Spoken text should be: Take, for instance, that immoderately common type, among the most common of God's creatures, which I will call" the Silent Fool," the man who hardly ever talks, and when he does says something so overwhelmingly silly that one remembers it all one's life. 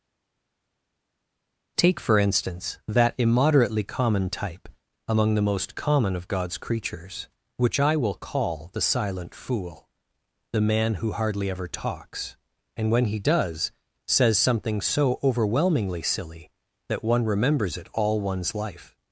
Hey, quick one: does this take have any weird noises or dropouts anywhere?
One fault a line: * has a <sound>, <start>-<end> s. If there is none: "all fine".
all fine